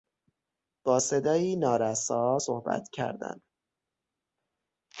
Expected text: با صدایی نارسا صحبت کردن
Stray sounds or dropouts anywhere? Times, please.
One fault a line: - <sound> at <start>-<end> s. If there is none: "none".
none